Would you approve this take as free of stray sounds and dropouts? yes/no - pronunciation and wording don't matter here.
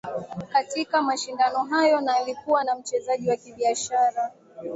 yes